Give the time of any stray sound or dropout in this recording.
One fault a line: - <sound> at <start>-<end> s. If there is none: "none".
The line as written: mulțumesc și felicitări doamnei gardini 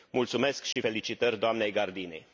- dropout at 0.7-0.8 s